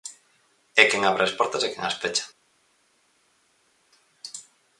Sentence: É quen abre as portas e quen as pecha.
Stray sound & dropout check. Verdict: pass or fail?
pass